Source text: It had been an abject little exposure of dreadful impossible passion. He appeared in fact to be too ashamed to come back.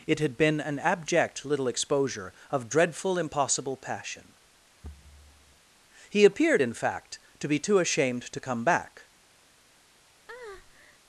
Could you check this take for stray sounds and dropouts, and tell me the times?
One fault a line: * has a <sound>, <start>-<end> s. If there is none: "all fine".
* has a thud, 4.8-5.6 s
* has a breath, 10.3-11.0 s